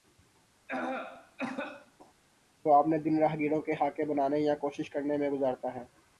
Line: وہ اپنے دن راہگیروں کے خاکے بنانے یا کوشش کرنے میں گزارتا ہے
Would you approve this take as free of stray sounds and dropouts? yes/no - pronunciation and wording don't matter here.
no